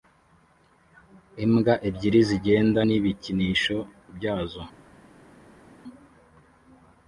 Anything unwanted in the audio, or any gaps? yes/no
no